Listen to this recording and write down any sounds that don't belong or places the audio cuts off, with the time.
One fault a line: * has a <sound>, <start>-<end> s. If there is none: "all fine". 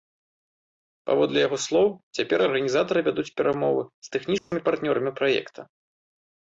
* has a dropout, 4.4-4.5 s